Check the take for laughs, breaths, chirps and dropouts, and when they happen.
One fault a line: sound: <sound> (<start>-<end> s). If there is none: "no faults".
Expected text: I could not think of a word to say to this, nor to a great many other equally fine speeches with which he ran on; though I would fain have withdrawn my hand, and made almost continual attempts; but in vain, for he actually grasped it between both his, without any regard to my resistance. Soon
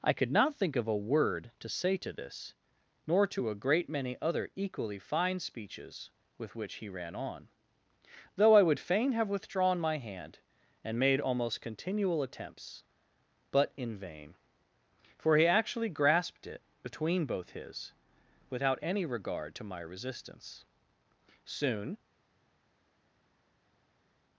no faults